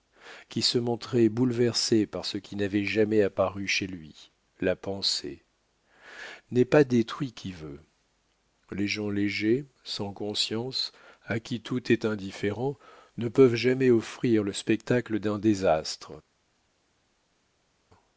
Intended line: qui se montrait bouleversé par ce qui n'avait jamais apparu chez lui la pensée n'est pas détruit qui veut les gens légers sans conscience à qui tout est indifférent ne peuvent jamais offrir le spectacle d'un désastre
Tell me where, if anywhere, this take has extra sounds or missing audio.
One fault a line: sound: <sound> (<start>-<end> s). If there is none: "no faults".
no faults